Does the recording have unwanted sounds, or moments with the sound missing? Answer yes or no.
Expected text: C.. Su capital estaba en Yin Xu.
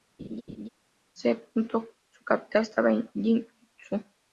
yes